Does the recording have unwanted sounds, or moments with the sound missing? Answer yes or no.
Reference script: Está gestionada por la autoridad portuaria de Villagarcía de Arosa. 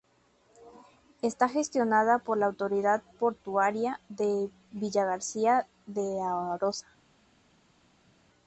no